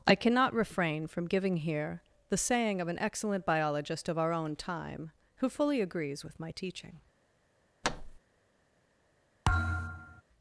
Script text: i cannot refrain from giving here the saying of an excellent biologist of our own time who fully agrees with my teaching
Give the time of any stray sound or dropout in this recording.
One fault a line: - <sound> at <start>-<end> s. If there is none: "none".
- thud at 7.8-8.2 s
- thud at 9.4-10.2 s